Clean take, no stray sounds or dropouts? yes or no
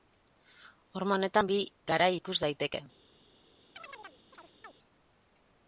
no